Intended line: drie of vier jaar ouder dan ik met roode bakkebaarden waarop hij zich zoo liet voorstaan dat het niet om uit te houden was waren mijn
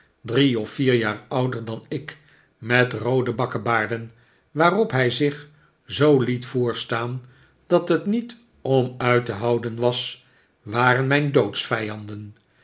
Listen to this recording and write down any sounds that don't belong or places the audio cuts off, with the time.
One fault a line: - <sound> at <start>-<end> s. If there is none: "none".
none